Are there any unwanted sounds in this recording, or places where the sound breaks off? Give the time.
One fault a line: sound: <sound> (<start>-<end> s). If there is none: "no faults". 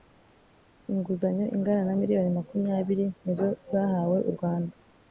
no faults